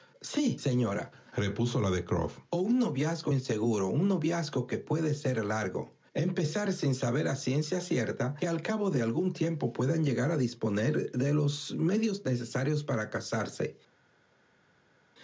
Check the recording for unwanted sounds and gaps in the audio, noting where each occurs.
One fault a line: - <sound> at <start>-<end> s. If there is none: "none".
none